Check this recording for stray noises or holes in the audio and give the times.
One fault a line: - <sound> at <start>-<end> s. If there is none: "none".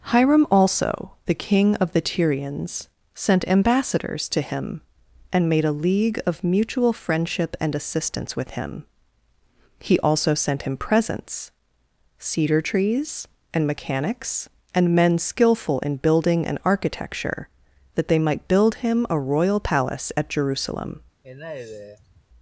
- sigh at 21.2-22.3 s